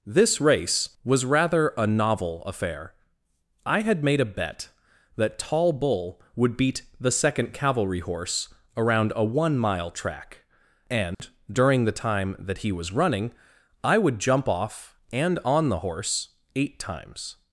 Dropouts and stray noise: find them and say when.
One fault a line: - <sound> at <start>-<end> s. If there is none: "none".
- dropout at 11.1-11.2 s